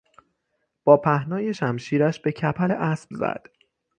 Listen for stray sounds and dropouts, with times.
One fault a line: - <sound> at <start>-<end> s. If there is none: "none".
none